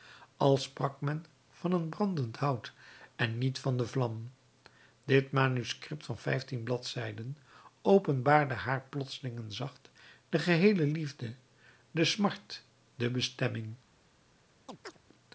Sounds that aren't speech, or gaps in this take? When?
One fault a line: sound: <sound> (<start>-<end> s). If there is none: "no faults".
sound: chirp (14.7-15.0 s)